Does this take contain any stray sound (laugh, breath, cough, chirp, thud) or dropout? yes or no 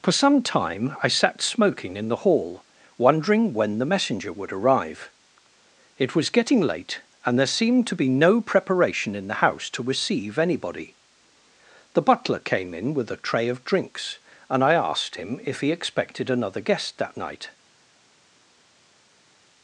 no